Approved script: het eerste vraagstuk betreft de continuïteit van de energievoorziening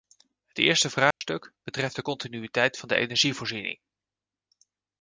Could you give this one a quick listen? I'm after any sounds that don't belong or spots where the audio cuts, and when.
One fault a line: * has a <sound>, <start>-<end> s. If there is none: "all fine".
* has a dropout, 1.1-1.2 s